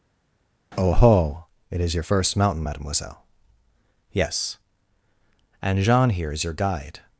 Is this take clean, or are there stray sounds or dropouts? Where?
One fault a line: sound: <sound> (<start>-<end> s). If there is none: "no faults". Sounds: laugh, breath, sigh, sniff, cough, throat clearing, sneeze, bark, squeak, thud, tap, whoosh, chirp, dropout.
no faults